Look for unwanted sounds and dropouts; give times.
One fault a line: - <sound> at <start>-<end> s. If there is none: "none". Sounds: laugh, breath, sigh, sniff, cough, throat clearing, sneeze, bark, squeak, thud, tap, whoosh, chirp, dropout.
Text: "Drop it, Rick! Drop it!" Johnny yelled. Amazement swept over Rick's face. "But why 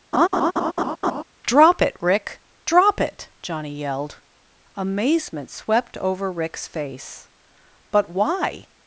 - laugh at 0.1-1.2 s